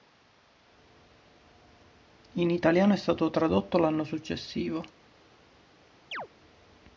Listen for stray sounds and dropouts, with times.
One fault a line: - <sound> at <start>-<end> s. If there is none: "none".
- chirp at 6.1-6.3 s